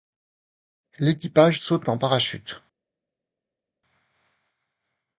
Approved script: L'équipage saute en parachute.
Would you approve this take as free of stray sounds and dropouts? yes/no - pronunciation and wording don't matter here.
yes